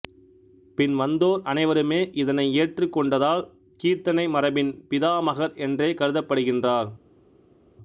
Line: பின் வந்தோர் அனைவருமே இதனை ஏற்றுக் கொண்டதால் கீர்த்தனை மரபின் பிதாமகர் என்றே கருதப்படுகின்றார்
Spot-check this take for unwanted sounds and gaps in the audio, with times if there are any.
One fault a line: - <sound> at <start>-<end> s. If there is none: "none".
none